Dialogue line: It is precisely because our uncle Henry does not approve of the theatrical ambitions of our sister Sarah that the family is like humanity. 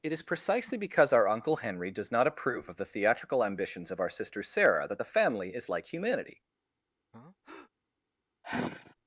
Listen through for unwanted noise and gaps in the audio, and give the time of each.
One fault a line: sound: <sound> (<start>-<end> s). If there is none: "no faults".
sound: breath (7.1-7.7 s)
sound: sigh (8.4-8.9 s)